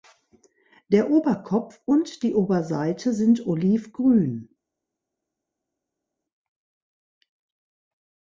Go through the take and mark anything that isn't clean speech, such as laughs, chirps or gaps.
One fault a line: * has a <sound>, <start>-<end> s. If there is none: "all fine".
all fine